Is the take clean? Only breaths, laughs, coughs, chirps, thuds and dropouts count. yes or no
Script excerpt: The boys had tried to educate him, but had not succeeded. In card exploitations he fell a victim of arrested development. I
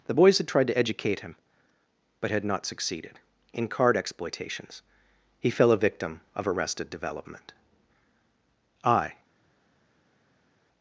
yes